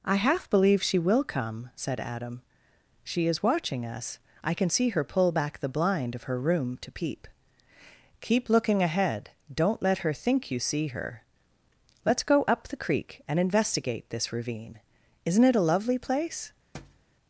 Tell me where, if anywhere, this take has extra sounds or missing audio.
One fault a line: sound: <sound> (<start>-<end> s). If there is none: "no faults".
sound: thud (16.7-17.1 s)